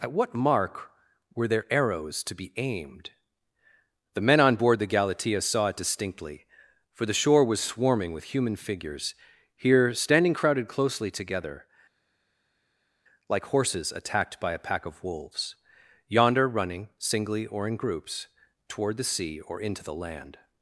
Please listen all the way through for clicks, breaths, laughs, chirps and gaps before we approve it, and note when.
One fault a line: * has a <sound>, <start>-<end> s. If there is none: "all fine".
all fine